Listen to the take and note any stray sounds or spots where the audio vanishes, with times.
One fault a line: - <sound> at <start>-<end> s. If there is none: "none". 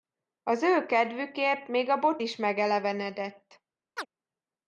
- chirp at 4.0-4.1 s